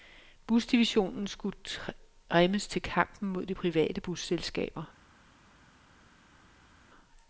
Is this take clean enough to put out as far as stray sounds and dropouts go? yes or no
yes